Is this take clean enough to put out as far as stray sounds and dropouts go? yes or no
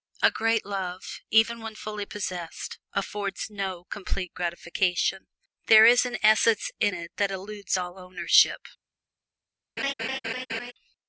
no